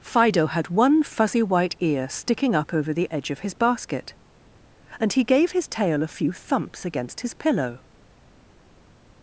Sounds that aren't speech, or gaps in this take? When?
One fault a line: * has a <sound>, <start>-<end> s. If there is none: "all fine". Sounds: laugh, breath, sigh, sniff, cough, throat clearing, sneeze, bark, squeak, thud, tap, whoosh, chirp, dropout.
all fine